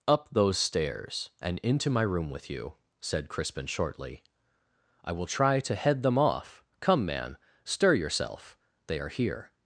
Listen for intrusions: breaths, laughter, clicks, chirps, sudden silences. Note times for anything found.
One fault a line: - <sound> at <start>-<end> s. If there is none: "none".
none